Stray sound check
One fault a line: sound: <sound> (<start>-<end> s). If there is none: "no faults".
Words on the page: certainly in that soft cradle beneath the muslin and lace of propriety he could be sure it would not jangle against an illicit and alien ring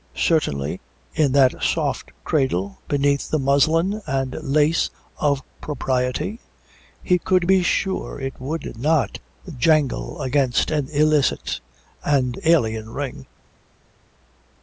no faults